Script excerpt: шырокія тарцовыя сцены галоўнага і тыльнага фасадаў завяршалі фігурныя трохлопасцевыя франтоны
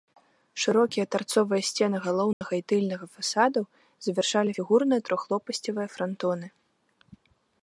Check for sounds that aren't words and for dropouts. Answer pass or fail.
fail